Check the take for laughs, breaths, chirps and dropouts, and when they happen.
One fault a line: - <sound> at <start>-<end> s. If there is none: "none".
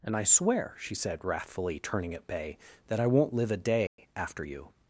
- dropout at 3.9-4.0 s